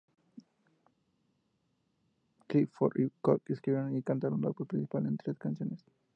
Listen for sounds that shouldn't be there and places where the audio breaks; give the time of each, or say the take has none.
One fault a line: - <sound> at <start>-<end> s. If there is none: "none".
none